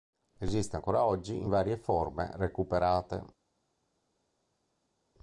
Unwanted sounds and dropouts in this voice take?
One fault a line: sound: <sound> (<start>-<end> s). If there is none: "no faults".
no faults